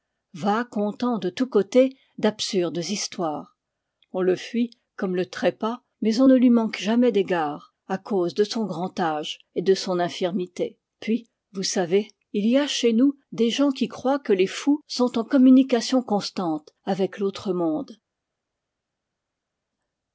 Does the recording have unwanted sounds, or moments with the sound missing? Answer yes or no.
no